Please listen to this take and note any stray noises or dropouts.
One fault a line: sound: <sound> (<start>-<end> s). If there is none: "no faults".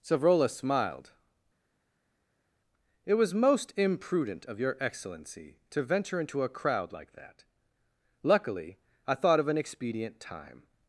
no faults